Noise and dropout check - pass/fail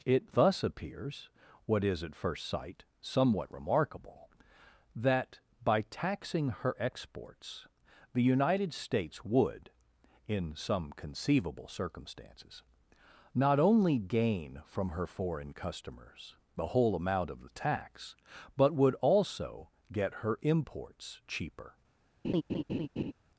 fail